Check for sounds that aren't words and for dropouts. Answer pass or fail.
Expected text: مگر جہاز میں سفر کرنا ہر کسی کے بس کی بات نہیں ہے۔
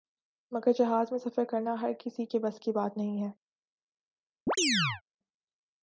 fail